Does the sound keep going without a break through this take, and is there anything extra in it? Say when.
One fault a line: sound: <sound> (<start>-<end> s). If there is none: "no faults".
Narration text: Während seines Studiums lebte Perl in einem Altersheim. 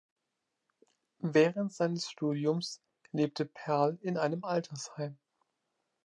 no faults